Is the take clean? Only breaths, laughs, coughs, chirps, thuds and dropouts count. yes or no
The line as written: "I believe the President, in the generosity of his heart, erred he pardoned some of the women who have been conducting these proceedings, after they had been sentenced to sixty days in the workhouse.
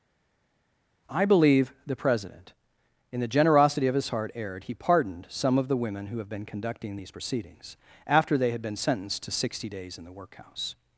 yes